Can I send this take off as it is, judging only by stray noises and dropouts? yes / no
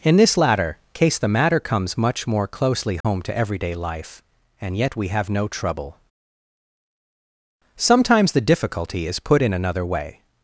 no